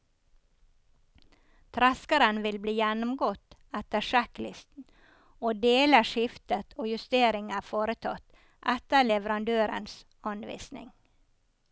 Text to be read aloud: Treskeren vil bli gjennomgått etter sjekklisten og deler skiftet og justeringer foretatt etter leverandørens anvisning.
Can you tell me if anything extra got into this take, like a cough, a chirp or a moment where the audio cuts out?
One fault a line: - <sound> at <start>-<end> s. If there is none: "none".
none